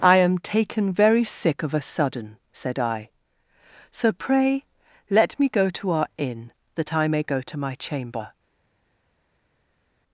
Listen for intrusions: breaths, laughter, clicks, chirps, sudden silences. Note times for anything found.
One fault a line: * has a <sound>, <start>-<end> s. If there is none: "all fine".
all fine